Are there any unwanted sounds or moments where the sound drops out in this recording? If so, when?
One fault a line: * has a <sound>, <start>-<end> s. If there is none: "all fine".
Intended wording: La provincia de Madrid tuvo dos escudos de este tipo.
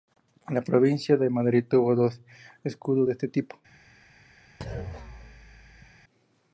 * has a thud, 4.6-6.0 s